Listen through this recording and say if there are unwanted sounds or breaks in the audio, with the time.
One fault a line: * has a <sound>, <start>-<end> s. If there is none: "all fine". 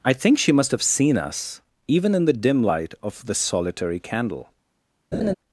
* has a laugh, 5.1-5.3 s